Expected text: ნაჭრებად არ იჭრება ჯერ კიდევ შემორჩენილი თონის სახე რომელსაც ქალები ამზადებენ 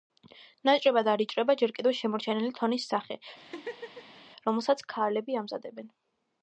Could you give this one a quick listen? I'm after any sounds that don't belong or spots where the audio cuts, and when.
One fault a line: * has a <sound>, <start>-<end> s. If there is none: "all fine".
* has a laugh, 3.4-4.2 s